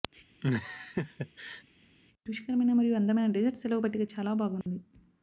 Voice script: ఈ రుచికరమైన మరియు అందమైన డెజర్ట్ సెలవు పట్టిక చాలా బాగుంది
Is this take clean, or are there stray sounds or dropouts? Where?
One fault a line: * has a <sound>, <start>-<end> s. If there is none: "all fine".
* has a laugh, 0.4-1.6 s
* has a dropout, 4.6-4.7 s